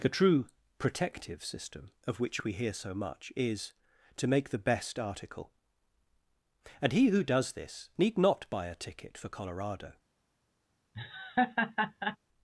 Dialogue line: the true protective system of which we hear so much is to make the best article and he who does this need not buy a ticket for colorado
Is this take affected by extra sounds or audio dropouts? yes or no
yes